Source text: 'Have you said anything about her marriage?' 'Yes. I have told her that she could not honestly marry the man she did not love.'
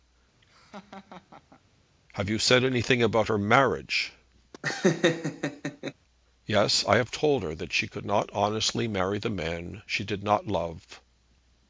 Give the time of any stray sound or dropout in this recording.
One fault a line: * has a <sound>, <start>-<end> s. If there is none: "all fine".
* has a laugh, 0.4-1.6 s
* has a laugh, 4.5-5.9 s